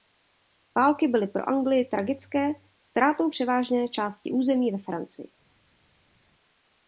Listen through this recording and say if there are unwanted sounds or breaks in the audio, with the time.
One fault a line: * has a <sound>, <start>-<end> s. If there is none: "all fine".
all fine